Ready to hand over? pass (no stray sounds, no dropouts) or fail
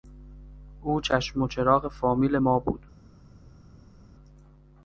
pass